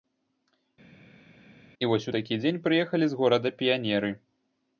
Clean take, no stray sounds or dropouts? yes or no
yes